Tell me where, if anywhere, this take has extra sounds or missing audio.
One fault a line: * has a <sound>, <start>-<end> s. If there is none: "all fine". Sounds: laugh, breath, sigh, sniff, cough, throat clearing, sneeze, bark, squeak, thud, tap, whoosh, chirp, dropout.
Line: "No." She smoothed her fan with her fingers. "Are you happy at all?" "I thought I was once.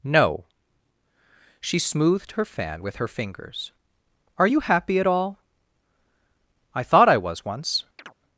* has a chirp, 8.0-8.2 s